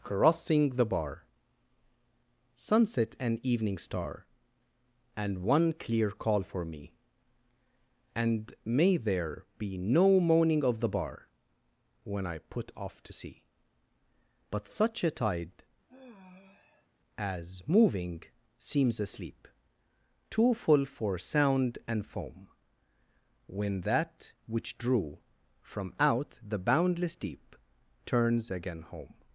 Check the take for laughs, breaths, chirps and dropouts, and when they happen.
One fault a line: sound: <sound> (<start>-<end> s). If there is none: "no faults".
sound: sigh (15.9-16.9 s)